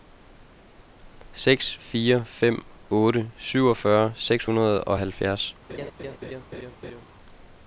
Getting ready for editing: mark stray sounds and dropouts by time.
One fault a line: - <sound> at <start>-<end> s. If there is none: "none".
- laugh at 5.7-7.1 s